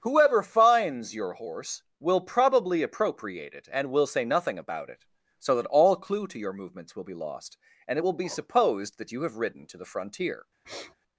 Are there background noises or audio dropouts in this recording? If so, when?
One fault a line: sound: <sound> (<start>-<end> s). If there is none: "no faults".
sound: sniff (10.6-10.9 s)